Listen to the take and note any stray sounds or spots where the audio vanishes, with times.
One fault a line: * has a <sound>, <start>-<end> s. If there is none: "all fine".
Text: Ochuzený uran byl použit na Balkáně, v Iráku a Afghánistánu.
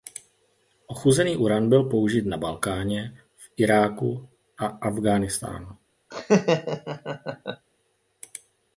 * has a laugh, 6.1-7.7 s